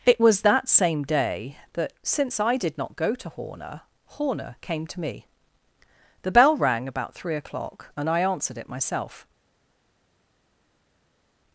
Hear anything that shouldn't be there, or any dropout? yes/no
no